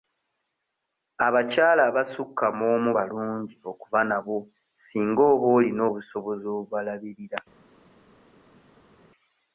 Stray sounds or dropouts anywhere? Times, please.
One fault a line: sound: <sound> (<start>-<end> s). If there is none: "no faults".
no faults